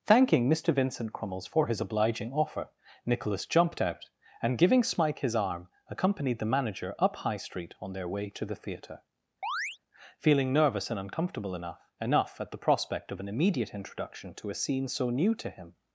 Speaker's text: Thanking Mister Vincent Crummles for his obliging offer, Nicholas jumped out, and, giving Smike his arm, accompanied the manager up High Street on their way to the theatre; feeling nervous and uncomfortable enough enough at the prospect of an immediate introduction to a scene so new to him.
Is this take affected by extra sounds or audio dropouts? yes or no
yes